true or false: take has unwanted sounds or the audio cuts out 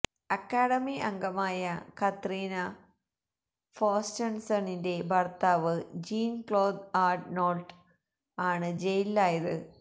false